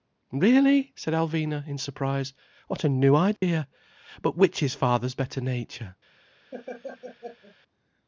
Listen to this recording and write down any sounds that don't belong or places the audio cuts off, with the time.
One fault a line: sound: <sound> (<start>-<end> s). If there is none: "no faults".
sound: dropout (3.4-3.4 s)
sound: laugh (6.5-7.6 s)